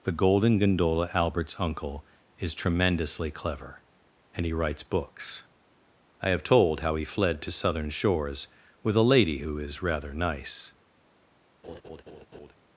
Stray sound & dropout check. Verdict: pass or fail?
fail